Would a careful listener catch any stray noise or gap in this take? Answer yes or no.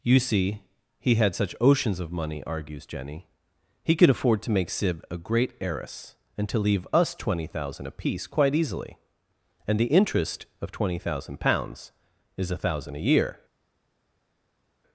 no